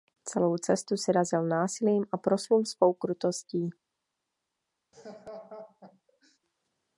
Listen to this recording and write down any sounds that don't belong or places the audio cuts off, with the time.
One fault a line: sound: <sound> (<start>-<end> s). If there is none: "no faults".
sound: laugh (4.9-6.4 s)